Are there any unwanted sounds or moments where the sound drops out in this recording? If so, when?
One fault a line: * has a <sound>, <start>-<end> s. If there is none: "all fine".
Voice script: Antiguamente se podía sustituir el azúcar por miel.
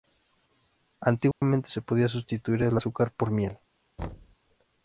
* has a dropout, 1.3-1.4 s
* has a thud, 4.0-4.4 s